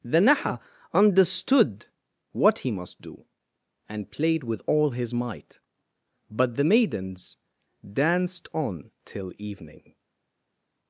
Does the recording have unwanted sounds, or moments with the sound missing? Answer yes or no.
no